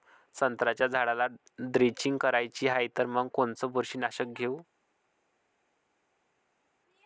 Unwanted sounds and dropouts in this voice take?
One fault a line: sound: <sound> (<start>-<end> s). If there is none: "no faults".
no faults